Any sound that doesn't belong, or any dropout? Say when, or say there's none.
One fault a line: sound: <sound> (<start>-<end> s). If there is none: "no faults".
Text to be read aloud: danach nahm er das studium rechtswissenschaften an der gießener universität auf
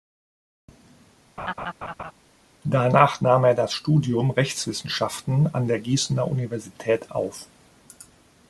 sound: laugh (1.4-2.1 s)